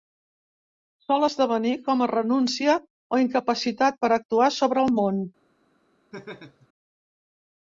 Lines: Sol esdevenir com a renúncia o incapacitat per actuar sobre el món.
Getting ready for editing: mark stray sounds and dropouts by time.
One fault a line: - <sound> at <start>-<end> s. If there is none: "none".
- laugh at 6.1-6.7 s